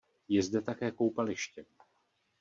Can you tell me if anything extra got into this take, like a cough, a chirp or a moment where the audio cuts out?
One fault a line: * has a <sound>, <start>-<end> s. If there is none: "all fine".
all fine